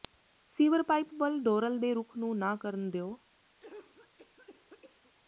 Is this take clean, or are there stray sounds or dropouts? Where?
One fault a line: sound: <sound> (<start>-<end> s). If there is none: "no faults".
sound: cough (3.6-5.1 s)